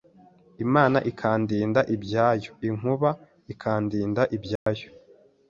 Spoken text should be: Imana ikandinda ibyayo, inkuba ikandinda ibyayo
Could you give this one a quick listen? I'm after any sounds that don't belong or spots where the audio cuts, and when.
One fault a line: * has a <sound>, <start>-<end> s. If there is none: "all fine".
* has a dropout, 4.6-4.7 s